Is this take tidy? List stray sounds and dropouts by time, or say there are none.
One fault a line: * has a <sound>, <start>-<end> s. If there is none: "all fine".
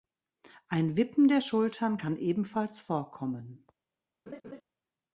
* has a laugh, 4.3-4.6 s